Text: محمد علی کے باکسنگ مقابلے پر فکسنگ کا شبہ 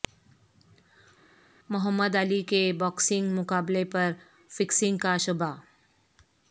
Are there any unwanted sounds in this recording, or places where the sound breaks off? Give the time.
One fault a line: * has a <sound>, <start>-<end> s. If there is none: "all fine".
all fine